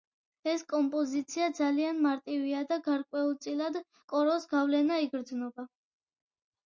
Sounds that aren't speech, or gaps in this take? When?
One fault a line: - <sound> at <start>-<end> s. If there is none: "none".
none